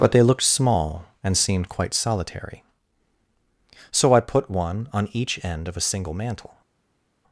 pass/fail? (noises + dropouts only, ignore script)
pass